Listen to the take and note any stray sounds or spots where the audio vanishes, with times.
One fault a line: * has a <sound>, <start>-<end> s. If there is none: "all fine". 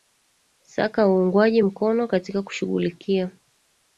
all fine